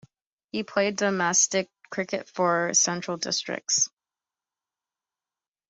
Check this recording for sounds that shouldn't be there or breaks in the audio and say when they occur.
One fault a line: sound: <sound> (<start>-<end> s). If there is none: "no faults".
no faults